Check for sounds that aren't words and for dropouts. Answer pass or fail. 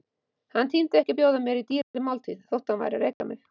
fail